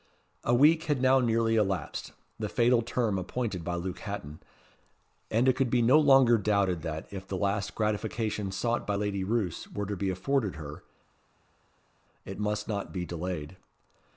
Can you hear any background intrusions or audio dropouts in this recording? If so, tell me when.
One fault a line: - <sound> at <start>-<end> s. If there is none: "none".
none